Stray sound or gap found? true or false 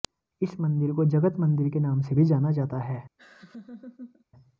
true